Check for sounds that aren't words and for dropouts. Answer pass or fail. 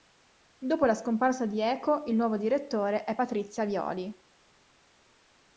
pass